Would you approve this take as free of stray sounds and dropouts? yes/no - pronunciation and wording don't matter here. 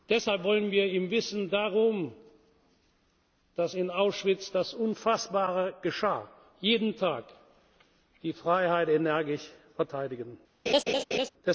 no